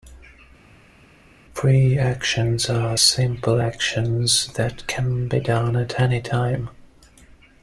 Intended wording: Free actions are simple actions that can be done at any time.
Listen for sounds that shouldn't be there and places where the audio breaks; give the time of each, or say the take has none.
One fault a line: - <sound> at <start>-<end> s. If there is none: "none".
none